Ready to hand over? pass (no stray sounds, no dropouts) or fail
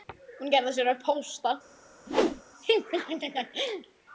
fail